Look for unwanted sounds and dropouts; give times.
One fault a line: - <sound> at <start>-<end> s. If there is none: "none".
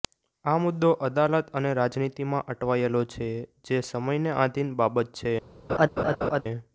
- laugh at 5.7-6.4 s